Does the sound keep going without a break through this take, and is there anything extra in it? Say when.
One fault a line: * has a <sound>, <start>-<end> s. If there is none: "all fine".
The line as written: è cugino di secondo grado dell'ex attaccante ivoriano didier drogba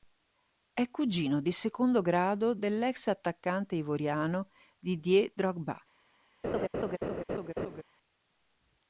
* has a laugh, 6.4-7.8 s